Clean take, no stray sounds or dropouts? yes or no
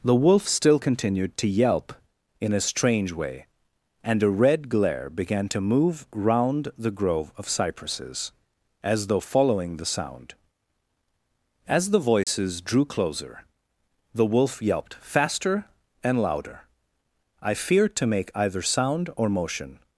no